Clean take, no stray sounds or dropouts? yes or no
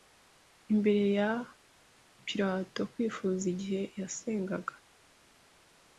yes